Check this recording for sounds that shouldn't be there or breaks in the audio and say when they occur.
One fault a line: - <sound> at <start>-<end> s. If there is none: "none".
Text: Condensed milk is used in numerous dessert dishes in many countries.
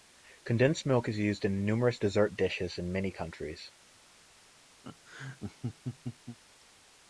- laugh at 4.8-6.4 s